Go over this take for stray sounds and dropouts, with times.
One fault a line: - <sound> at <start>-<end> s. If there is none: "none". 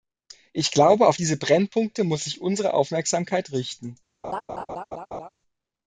- laugh at 4.2-5.3 s